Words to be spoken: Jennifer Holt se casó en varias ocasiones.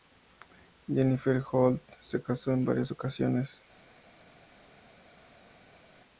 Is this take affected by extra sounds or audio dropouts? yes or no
no